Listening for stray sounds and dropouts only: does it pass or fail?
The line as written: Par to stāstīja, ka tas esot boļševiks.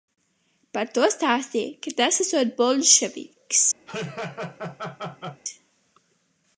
fail